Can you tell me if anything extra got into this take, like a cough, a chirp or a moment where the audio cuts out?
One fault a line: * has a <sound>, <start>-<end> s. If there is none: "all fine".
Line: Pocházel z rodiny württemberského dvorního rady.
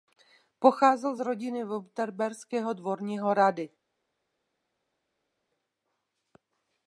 all fine